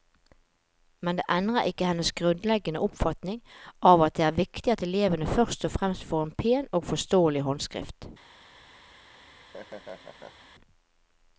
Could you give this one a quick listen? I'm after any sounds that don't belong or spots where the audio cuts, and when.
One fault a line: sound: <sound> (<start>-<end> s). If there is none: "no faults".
sound: laugh (9.1-10.5 s)